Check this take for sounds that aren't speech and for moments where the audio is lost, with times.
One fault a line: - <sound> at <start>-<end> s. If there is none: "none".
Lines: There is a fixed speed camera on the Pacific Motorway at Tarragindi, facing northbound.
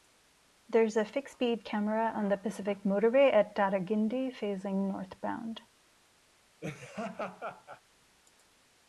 - laugh at 6.6-7.8 s